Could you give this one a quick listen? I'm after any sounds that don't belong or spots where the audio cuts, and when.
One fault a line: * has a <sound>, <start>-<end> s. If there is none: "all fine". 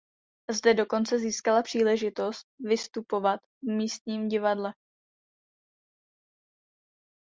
all fine